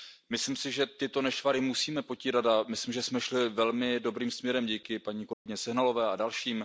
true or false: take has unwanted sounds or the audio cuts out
true